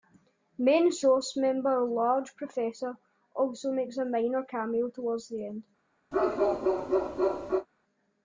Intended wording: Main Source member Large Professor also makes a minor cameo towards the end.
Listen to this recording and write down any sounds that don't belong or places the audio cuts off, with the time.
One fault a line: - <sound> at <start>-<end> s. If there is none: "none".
- bark at 6.1-7.7 s